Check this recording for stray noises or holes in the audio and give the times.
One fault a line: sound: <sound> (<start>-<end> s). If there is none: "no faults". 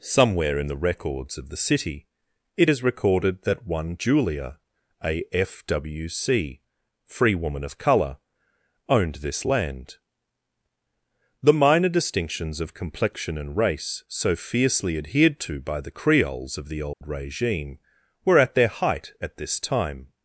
sound: dropout (16.9-17.0 s)